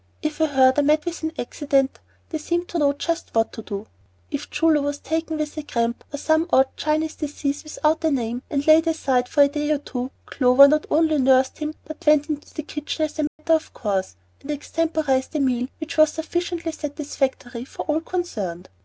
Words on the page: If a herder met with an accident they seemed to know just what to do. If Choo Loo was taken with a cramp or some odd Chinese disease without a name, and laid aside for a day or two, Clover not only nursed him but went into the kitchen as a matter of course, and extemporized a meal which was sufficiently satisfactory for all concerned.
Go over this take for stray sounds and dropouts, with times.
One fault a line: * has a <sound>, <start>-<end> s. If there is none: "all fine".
* has a dropout, 13.3-13.4 s